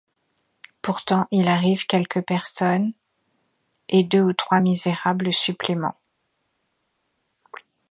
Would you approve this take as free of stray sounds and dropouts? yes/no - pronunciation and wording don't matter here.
yes